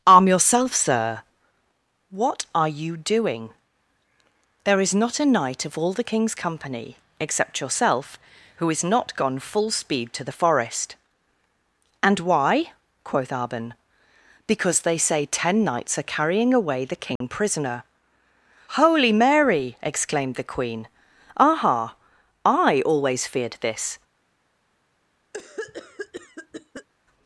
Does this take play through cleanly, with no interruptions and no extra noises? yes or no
no